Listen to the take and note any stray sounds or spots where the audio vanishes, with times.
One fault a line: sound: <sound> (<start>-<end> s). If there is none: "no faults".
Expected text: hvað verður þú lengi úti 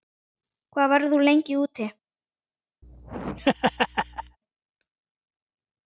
sound: laugh (2.8-4.4 s)